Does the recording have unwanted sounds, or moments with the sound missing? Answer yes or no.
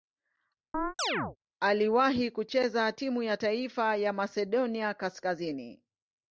yes